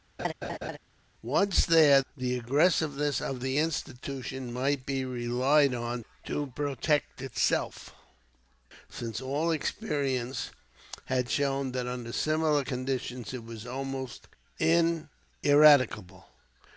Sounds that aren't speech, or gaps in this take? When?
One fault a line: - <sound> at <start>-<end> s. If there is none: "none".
- laugh at 0.2-0.8 s